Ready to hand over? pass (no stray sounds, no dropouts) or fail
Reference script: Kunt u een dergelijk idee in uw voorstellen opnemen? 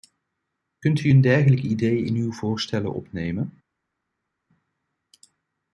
pass